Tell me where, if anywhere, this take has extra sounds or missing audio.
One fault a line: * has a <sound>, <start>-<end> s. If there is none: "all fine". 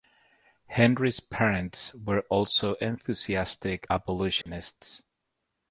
* has a dropout, 4.4-4.5 s